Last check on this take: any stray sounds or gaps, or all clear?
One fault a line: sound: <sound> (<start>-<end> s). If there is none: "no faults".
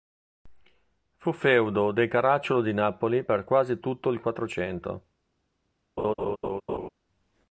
sound: laugh (6.0-6.9 s)